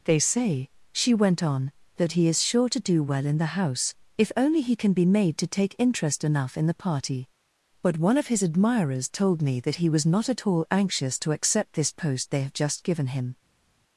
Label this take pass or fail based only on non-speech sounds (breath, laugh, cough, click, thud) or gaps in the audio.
pass